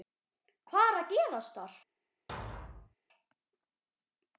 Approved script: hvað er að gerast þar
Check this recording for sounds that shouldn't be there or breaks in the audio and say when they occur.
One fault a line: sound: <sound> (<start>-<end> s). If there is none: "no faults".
sound: thud (2.3-3.0 s)